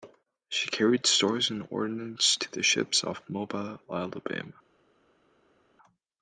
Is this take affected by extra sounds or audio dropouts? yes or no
no